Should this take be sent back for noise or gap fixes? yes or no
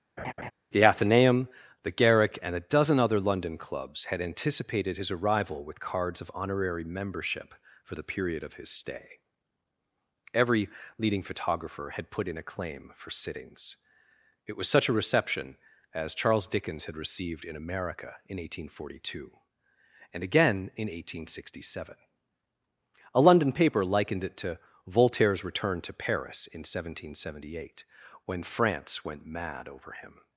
yes